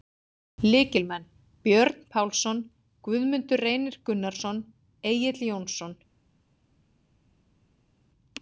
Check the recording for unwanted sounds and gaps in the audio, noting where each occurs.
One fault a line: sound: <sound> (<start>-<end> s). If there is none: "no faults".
no faults